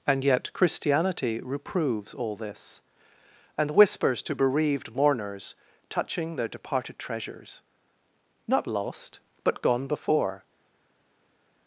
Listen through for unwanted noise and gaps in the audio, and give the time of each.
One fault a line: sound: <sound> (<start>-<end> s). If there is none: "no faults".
no faults